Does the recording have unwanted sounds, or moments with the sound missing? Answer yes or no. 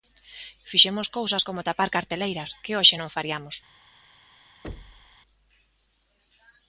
yes